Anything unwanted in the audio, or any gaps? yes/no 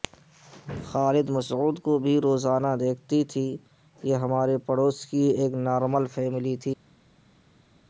no